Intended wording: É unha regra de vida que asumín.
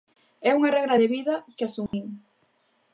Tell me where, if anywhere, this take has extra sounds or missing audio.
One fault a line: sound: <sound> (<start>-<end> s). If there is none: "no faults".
sound: dropout (1.9-1.9 s)